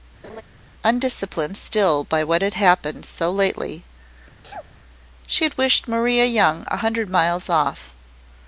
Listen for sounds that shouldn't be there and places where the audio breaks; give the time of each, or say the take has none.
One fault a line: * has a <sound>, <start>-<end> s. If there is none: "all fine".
* has a laugh, 0.2-0.4 s
* has a sneeze, 4.4-4.7 s